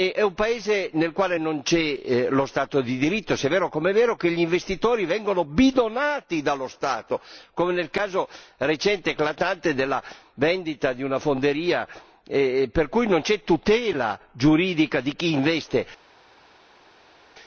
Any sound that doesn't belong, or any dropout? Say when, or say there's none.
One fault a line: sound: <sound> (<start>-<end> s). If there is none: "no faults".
no faults